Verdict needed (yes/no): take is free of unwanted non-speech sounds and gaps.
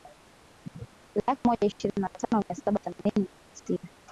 no